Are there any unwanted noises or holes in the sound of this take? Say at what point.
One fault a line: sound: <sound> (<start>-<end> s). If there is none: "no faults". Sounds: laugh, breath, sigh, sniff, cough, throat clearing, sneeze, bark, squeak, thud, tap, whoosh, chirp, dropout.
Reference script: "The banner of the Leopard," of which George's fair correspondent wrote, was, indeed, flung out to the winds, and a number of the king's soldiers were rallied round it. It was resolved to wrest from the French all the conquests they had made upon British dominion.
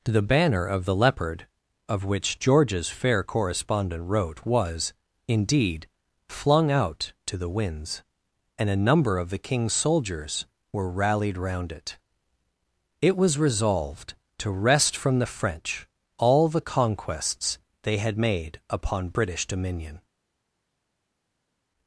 no faults